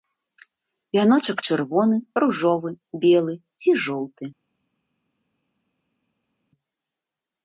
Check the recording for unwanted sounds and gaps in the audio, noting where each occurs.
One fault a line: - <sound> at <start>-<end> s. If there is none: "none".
none